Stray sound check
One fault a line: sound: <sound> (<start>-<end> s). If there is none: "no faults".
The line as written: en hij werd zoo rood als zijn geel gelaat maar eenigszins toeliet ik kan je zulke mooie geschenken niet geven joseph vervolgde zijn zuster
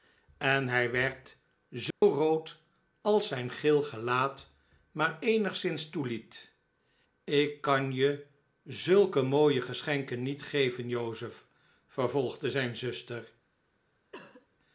sound: dropout (1.9-2.0 s)
sound: cough (14.1-14.5 s)